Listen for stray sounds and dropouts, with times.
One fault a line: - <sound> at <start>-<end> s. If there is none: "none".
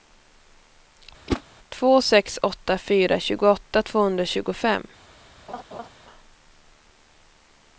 - whoosh at 1.3-1.4 s
- laugh at 5.5-5.9 s